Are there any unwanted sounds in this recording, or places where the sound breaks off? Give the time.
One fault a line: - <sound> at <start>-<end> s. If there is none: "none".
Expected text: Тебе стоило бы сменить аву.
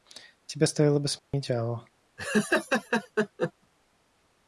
- dropout at 1.2-1.3 s
- laugh at 2.2-3.5 s